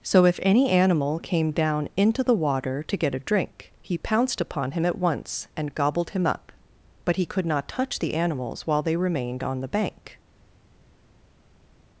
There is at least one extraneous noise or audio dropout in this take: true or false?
false